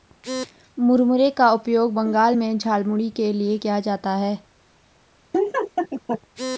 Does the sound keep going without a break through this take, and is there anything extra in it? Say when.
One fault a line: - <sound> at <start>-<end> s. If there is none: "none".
- laugh at 5.3-6.2 s